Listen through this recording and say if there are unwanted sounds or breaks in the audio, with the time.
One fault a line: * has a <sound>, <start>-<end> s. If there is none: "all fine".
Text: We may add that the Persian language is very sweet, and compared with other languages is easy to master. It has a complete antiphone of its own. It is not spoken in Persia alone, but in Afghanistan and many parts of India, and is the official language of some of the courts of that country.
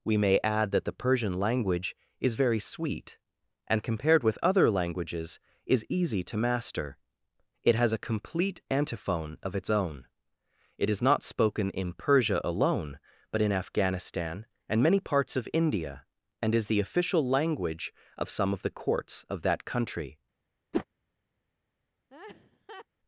* has a whoosh, 20.7-20.9 s
* has a laugh, 22.1-22.9 s